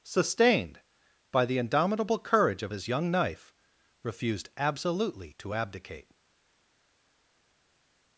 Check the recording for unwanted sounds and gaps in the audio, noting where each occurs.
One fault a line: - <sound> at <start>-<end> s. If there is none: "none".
none